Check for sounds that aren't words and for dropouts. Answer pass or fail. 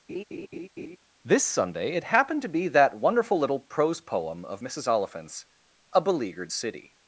fail